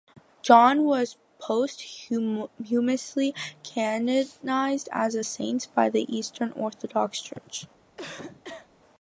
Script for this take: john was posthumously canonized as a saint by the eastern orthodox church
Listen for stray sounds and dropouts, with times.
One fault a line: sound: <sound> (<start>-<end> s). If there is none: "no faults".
sound: cough (8.0-8.7 s)